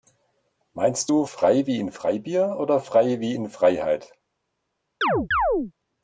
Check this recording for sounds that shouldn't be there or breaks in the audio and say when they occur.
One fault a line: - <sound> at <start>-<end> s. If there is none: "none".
- chirp at 5.0-5.7 s